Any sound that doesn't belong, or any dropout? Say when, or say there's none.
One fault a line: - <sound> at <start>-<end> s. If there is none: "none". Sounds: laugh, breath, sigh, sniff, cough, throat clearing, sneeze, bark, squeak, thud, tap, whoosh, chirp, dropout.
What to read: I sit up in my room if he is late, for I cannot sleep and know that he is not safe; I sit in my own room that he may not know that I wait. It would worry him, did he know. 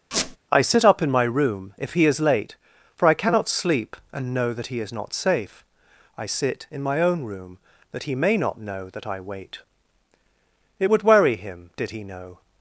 - squeak at 0.1-0.4 s